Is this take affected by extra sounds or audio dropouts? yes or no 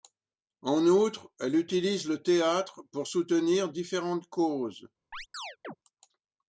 yes